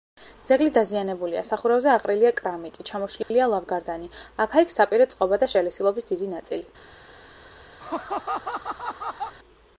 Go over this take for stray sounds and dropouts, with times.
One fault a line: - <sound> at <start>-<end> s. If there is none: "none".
- dropout at 3.2-3.3 s
- laugh at 7.8-9.3 s